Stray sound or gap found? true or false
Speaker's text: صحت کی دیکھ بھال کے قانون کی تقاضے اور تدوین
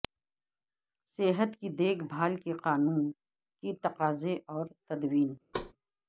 true